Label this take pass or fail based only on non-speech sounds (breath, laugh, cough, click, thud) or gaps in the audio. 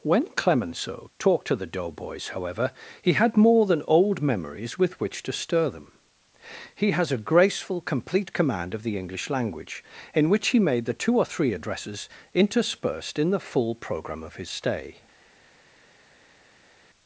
pass